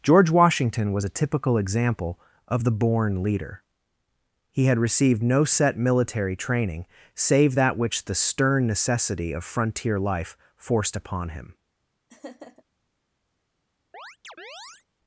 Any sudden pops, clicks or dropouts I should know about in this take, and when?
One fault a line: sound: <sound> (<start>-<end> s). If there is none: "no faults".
sound: laugh (12.1-12.6 s)
sound: chirp (13.9-14.8 s)